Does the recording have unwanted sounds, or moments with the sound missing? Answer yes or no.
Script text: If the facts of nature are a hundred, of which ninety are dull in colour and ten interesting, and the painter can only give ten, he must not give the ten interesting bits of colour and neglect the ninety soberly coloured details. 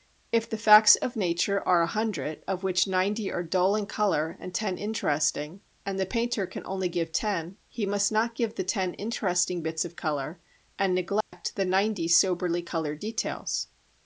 yes